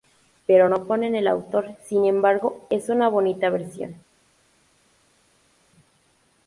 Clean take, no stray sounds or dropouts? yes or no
yes